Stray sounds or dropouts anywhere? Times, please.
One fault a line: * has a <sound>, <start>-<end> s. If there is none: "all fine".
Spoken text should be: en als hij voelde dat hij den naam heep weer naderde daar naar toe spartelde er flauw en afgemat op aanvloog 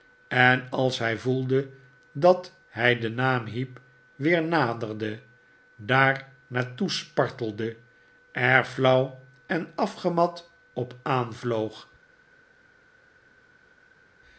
all fine